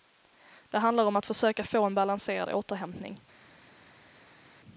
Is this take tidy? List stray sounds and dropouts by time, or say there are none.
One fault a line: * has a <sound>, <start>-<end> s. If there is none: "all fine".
all fine